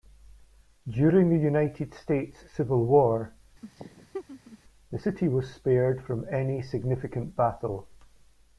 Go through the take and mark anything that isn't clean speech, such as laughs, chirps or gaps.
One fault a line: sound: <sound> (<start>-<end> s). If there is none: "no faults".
sound: laugh (3.6-4.6 s)